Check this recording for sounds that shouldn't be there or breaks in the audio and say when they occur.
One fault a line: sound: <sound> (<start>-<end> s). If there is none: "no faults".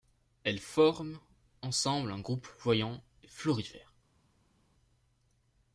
no faults